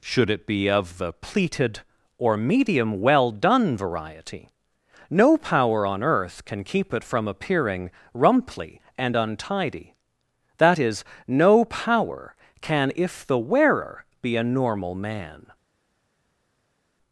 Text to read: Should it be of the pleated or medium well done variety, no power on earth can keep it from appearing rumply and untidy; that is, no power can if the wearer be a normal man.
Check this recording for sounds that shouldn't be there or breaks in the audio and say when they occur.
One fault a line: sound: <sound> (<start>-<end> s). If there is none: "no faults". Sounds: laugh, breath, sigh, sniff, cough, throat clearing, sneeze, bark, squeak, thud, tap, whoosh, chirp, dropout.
no faults